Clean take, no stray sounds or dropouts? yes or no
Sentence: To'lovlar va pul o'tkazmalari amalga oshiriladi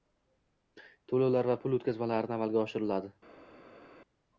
yes